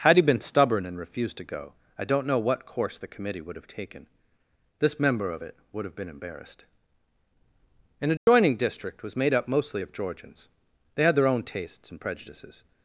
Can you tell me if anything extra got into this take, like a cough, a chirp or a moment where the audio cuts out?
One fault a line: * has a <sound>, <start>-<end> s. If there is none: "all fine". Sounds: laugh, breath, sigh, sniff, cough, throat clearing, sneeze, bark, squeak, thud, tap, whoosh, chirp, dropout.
* has a dropout, 8.2-8.3 s